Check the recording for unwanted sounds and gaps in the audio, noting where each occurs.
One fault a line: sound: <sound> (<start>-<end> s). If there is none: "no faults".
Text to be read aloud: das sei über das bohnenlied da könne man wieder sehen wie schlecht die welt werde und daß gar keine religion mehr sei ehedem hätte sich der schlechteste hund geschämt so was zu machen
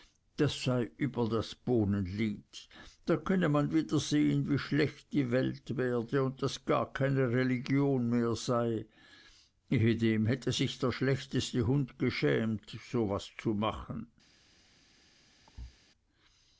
sound: thud (15.5-15.8 s)